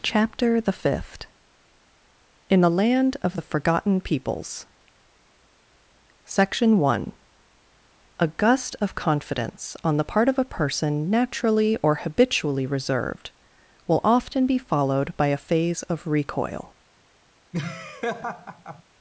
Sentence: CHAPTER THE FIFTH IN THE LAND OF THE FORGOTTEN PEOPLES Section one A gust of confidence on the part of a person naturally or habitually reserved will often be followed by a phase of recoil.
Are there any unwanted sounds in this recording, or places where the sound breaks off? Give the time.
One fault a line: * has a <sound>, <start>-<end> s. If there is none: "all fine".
* has a laugh, 17.5-18.8 s